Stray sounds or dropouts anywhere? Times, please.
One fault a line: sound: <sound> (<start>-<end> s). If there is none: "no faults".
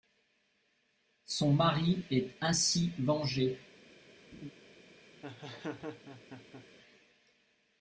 sound: laugh (4.3-4.5 s)
sound: laugh (5.2-6.7 s)